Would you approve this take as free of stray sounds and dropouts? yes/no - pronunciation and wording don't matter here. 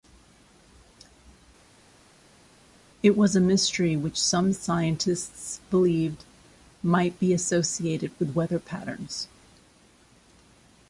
yes